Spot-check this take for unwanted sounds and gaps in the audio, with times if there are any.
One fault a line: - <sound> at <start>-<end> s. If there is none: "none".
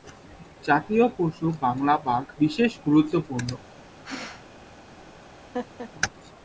- sneeze at 4.0-4.5 s
- laugh at 5.5-5.9 s